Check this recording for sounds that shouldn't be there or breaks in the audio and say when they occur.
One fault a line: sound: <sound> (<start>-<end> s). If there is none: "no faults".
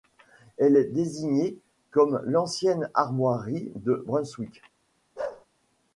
sound: bark (5.2-5.5 s)